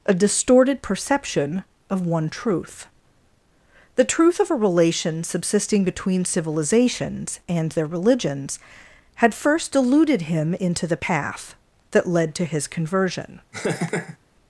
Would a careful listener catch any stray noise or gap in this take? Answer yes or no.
yes